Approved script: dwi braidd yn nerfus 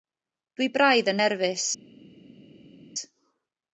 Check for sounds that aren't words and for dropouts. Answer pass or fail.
pass